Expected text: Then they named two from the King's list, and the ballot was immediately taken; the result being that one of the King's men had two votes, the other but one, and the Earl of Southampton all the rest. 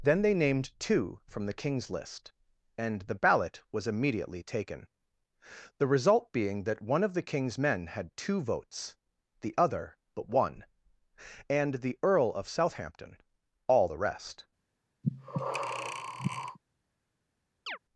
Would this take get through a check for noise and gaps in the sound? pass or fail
fail